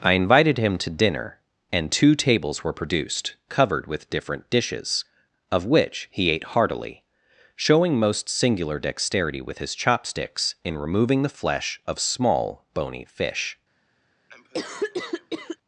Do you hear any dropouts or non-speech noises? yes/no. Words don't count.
yes